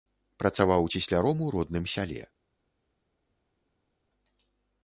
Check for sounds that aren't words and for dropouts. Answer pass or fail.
pass